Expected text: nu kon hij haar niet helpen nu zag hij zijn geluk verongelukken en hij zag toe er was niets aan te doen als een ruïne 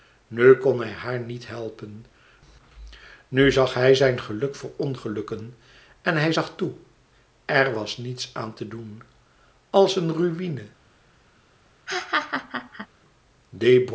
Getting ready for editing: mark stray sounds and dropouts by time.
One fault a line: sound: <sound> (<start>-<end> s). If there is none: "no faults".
sound: laugh (11.9-12.9 s)